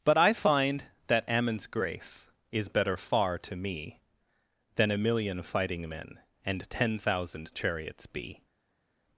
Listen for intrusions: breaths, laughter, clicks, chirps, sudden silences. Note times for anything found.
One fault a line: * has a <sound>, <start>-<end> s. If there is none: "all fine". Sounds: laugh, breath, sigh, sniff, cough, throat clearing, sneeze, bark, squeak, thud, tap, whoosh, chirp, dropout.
all fine